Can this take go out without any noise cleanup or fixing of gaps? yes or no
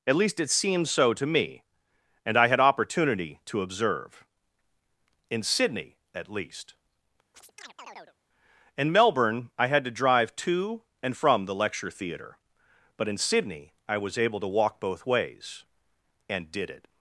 no